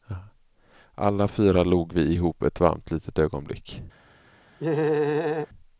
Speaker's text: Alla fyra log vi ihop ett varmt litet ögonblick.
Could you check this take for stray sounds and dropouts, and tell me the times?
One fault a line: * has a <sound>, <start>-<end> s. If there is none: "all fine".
* has a laugh, 4.6-5.5 s